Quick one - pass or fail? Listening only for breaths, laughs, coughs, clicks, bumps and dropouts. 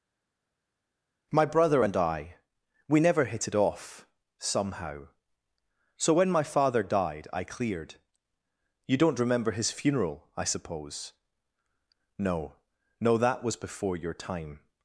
pass